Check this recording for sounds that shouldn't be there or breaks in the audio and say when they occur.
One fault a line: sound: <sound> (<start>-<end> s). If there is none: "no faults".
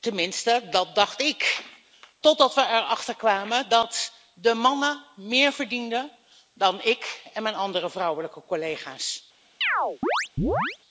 sound: chirp (9.6-10.8 s)